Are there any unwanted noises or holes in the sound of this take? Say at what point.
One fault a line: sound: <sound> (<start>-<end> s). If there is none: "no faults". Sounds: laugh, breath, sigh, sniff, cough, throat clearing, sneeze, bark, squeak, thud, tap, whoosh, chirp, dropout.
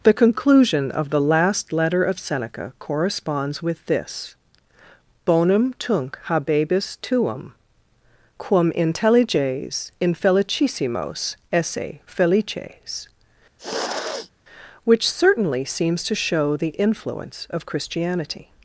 sound: sniff (13.6-14.3 s)